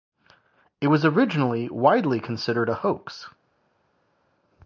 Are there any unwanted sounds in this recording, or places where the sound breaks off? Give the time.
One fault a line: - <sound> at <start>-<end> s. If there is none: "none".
none